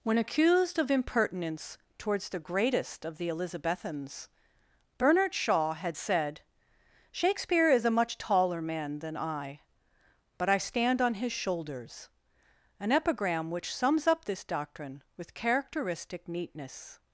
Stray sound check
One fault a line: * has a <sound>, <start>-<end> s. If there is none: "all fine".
all fine